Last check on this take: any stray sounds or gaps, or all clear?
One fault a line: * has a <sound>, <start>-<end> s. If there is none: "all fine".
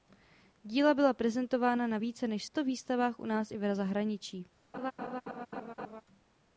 * has a laugh, 4.7-6.0 s